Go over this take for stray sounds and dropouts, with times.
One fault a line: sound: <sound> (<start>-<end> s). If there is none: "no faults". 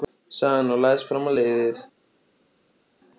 no faults